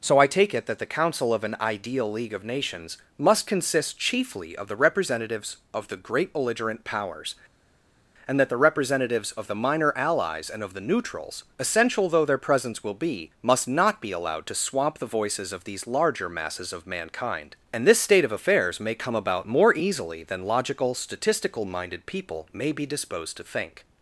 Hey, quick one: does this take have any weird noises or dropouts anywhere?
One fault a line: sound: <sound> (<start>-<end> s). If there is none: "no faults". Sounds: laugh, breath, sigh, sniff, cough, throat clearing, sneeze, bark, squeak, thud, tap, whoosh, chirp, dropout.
no faults